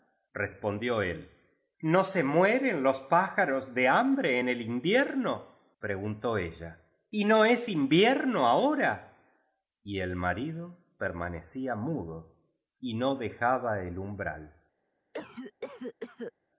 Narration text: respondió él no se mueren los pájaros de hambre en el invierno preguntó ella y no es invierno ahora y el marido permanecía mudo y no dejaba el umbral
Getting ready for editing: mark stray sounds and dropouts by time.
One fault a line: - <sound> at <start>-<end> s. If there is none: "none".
- cough at 15.1-16.3 s